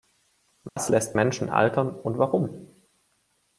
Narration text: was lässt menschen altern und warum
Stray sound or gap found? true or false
true